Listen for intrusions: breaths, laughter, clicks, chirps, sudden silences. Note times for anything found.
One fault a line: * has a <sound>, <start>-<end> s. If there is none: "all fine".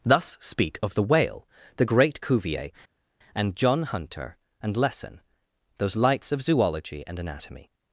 all fine